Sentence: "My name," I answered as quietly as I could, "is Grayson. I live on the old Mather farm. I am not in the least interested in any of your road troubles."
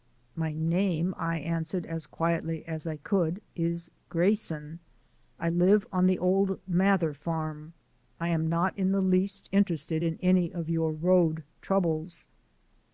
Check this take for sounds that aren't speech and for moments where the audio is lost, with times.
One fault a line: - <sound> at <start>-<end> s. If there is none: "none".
none